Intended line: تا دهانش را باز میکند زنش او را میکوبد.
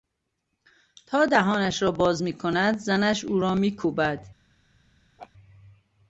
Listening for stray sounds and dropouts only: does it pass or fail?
fail